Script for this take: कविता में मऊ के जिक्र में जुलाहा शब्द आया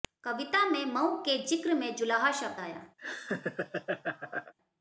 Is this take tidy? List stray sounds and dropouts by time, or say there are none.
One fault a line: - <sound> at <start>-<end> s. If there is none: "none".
- laugh at 3.0-4.5 s